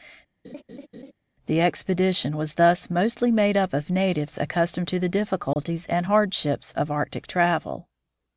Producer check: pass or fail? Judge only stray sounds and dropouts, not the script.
fail